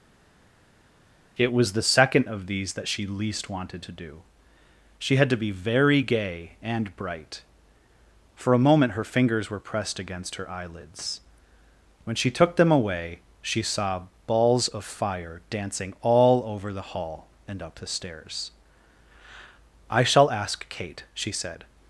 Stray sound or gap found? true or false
false